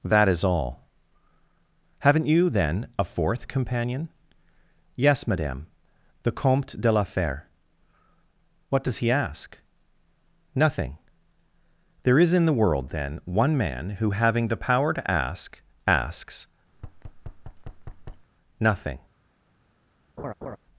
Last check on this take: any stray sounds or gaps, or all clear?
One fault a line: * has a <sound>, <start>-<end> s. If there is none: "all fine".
* has a thud, 16.7-18.3 s
* has a laugh, 20.2-20.6 s